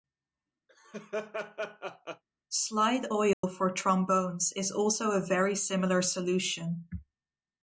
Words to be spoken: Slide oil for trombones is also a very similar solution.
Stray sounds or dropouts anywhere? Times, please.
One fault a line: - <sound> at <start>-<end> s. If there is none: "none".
- laugh at 0.7-2.2 s
- dropout at 3.3-3.4 s